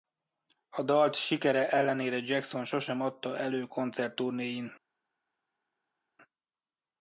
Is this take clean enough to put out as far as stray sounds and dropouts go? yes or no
yes